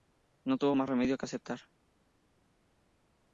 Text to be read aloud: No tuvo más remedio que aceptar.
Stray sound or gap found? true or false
false